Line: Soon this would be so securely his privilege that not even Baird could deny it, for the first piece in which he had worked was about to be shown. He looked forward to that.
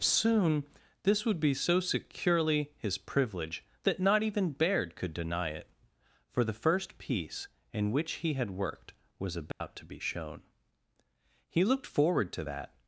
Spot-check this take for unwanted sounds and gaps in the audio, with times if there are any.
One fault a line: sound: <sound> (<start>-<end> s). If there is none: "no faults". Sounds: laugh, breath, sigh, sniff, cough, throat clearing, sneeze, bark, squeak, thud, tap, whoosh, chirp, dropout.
sound: dropout (9.5-9.6 s)